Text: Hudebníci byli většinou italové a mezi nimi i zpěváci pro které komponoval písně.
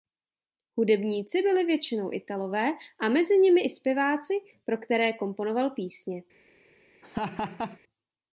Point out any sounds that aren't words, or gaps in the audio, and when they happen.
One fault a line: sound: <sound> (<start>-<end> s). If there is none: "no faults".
sound: laugh (7.0-7.8 s)